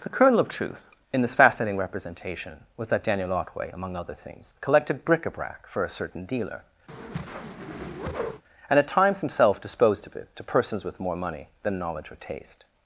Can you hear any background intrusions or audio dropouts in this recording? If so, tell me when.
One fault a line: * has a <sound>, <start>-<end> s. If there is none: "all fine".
* has a whoosh, 6.9-8.4 s